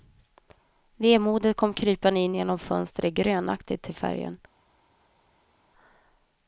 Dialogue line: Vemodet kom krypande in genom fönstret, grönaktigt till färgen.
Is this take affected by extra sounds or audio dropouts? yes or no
no